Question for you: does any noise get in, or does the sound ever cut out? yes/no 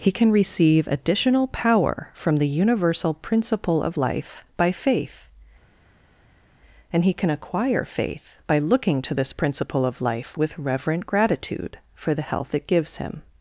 no